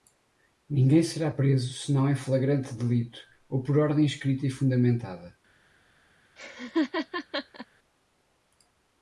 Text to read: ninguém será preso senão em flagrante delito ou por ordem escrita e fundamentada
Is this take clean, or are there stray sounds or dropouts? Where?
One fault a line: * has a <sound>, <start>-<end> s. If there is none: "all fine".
* has a laugh, 6.4-7.7 s